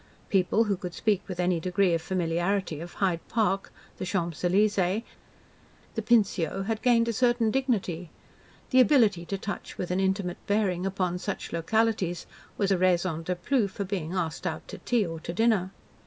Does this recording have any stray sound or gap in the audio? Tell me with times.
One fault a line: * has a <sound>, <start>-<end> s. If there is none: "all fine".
all fine